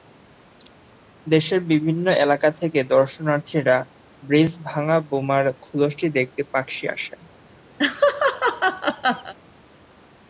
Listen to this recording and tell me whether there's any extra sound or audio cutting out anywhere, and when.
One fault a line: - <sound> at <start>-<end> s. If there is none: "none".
- laugh at 7.8-9.3 s